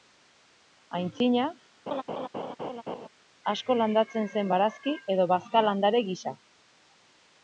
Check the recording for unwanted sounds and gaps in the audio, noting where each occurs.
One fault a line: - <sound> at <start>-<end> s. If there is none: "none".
- laugh at 1.9-3.1 s